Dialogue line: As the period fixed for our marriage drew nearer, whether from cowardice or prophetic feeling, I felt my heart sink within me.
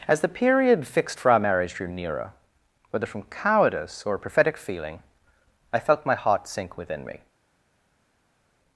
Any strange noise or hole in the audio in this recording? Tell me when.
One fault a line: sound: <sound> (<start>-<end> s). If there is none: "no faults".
no faults